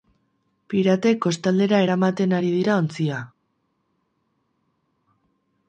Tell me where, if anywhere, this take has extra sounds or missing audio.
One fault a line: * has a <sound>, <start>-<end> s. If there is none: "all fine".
all fine